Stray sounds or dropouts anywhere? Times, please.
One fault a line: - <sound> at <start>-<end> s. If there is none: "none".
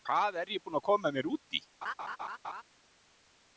- laugh at 1.8-2.6 s